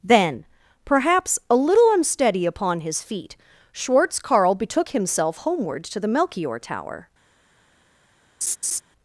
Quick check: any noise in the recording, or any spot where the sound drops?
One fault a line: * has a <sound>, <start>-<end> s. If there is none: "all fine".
* has a laugh, 8.4-8.8 s